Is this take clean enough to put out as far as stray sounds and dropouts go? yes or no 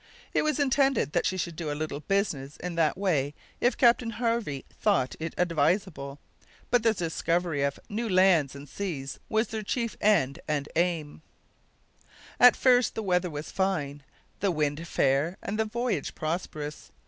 yes